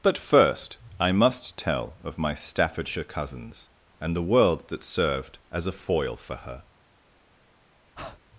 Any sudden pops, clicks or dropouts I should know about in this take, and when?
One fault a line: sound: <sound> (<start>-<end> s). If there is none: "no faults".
sound: breath (8.0-8.2 s)